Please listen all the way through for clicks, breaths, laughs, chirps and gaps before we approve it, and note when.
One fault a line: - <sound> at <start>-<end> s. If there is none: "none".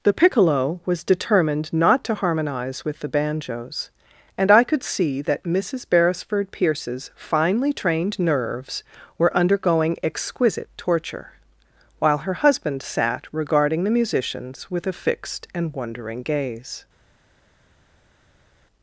none